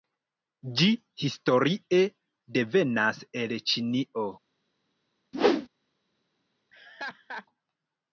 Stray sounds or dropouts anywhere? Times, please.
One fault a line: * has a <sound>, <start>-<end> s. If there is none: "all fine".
* has a whoosh, 5.3-5.7 s
* has a laugh, 6.7-7.5 s